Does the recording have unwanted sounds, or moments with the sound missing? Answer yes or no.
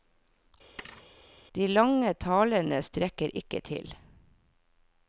yes